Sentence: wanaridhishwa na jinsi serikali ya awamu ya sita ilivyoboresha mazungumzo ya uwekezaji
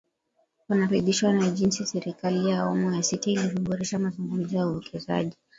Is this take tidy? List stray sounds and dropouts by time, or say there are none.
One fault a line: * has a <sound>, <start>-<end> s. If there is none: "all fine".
all fine